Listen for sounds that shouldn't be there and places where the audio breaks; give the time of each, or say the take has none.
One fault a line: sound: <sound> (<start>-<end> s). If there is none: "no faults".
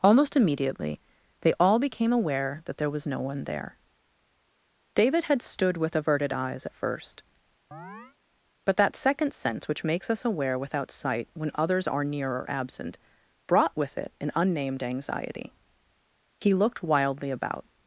sound: chirp (7.7-8.2 s)